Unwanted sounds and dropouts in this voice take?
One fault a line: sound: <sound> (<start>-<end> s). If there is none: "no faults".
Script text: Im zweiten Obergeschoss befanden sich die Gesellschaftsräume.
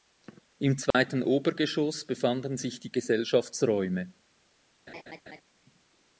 sound: dropout (0.9-0.9 s)
sound: laugh (4.9-5.4 s)